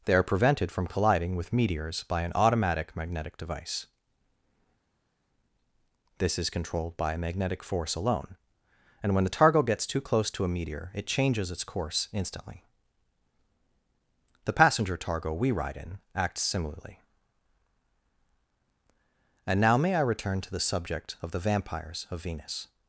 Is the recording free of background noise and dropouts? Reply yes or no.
yes